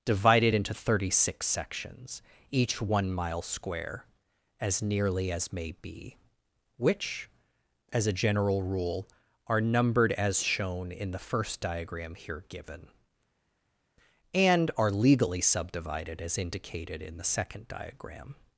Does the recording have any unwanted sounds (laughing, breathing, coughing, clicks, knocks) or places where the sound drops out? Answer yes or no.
no